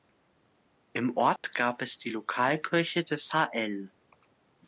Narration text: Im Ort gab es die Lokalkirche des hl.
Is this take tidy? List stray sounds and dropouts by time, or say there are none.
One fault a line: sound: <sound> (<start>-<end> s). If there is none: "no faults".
sound: dropout (1.4-1.4 s)